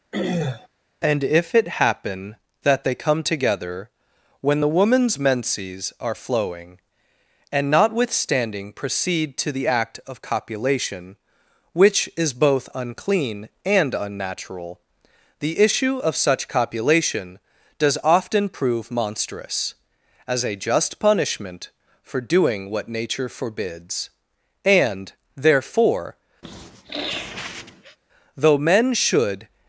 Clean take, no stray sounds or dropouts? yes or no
no